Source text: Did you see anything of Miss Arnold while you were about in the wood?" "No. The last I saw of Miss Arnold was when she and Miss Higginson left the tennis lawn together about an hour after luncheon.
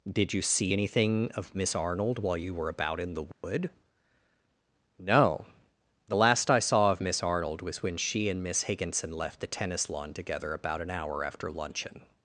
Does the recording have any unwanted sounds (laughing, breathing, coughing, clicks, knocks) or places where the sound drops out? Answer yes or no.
yes